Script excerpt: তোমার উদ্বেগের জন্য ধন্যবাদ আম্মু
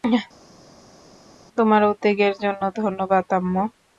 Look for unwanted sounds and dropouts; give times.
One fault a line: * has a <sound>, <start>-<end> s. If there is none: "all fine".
all fine